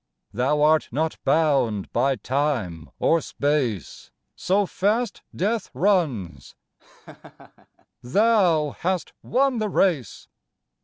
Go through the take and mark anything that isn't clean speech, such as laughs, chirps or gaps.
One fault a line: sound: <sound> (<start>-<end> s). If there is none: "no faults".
sound: laugh (6.8-7.9 s)